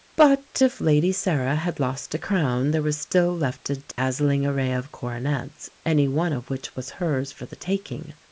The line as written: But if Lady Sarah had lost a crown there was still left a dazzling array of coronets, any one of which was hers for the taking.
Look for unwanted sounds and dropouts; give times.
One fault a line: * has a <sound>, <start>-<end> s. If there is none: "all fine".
* has a dropout, 3.9-4.0 s